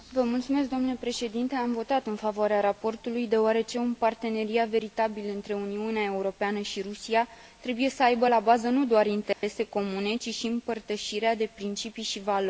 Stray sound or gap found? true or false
true